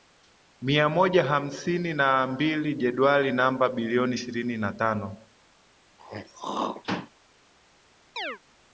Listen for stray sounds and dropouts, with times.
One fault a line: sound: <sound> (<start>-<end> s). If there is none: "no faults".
sound: throat clearing (6.0-7.1 s)
sound: chirp (8.2-8.4 s)